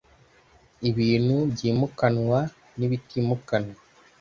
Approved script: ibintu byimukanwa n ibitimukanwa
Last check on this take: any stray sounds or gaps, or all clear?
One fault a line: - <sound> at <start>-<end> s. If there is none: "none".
none